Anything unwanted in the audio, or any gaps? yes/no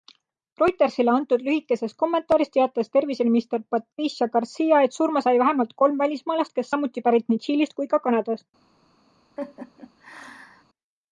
yes